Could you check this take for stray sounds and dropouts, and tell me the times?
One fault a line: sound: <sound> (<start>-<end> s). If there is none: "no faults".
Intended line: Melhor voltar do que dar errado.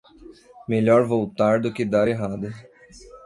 no faults